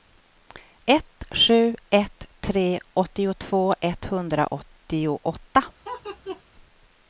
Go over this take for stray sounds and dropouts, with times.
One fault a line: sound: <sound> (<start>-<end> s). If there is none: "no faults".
sound: laugh (5.8-6.4 s)